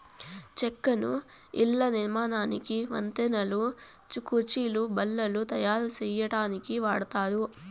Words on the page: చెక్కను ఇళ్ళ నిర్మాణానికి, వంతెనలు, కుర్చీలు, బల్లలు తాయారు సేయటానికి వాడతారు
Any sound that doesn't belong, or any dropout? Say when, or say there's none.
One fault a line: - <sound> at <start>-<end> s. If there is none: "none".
none